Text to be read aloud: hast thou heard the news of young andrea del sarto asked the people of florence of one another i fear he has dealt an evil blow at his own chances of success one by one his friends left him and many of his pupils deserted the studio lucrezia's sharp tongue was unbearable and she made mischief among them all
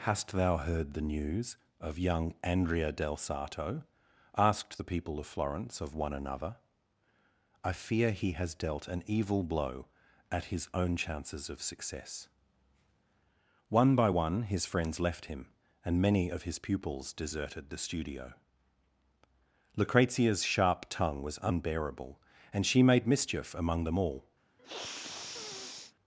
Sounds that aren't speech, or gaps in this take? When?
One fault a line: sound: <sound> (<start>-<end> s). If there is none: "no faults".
sound: sniff (24.6-25.9 s)